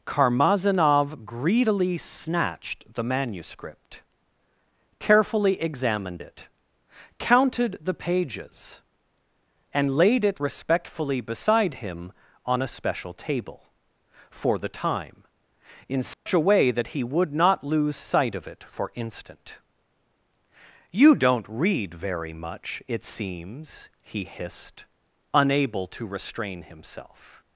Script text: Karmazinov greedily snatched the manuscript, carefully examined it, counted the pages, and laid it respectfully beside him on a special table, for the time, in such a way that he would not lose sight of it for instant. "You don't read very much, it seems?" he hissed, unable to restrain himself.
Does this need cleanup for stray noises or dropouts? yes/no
yes